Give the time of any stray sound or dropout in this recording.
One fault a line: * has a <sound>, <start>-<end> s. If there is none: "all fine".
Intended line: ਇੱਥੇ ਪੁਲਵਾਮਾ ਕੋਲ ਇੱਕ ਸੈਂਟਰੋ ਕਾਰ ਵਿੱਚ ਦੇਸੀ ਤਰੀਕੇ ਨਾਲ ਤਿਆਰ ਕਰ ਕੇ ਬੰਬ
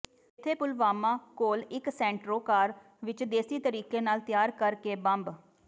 all fine